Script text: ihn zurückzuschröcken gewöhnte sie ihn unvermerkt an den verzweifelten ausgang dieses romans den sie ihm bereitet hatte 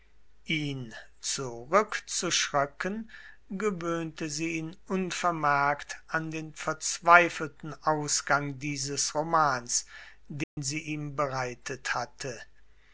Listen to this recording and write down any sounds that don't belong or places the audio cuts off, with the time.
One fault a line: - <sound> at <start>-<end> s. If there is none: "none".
- dropout at 10.4-10.6 s